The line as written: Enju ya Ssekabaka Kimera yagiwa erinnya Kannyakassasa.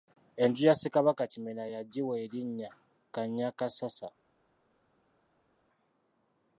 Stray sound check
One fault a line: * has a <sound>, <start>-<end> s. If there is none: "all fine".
all fine